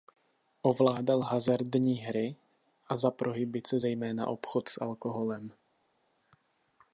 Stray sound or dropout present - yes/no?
no